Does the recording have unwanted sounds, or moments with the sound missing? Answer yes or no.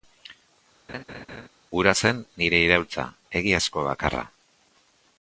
yes